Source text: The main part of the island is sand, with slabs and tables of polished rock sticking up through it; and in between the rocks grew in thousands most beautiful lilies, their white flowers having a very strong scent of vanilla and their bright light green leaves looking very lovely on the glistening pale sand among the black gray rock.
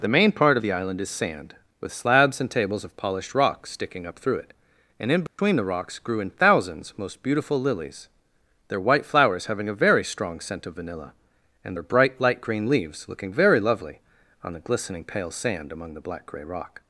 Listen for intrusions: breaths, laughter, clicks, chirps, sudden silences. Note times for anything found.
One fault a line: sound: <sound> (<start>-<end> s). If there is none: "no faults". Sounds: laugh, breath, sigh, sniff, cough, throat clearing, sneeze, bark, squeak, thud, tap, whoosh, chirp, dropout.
sound: dropout (5.3-5.4 s)